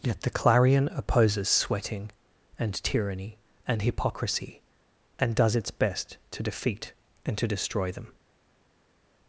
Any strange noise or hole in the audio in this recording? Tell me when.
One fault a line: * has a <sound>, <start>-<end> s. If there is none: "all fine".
all fine